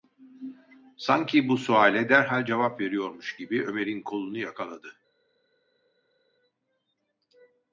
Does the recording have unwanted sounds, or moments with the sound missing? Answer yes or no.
no